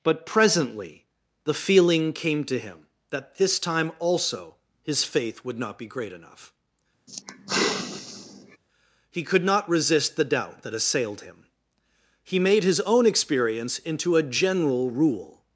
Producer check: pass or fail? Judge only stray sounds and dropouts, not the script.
fail